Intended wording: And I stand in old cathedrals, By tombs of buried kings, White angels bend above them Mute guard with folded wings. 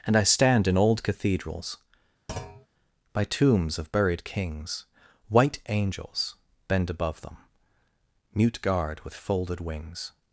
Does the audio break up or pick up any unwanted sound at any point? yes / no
yes